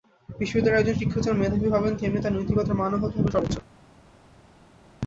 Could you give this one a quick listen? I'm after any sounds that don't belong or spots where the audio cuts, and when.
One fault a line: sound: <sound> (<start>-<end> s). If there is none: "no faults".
no faults